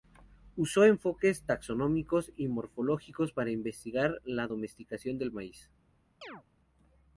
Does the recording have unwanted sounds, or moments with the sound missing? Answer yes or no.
yes